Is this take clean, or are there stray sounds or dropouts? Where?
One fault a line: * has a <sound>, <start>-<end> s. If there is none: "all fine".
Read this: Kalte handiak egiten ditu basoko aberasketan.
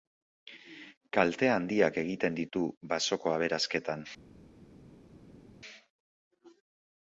all fine